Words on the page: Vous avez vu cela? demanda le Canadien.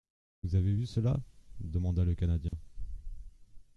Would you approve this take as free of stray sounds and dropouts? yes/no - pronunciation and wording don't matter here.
no